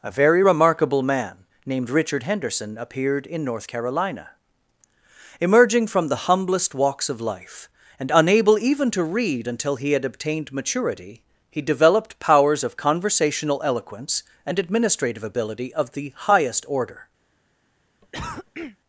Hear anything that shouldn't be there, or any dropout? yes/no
yes